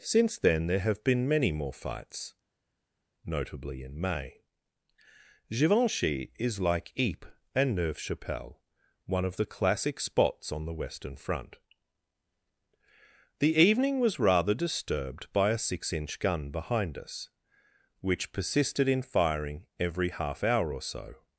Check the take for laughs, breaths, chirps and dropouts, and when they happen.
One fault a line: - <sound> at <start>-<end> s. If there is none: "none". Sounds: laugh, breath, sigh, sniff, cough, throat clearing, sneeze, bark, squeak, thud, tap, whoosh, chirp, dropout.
none